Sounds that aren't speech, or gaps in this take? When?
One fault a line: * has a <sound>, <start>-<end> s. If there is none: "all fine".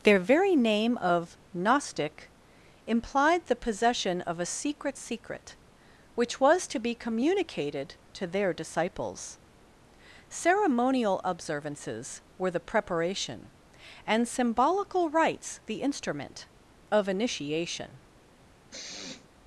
* has a sniff, 18.7-19.3 s